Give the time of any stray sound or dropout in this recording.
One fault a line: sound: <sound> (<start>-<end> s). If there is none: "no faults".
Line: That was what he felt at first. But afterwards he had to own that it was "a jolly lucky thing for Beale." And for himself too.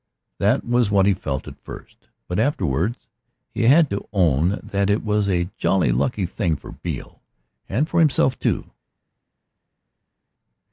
no faults